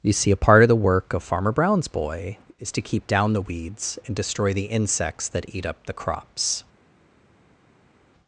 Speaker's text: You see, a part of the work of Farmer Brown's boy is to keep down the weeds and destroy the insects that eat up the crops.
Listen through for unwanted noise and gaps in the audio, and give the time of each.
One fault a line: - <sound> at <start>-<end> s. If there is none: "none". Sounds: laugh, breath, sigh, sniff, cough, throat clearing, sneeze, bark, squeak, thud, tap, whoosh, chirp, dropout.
none